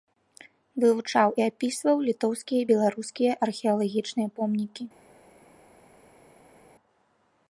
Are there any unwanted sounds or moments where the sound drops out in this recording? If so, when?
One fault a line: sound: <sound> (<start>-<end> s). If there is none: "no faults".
no faults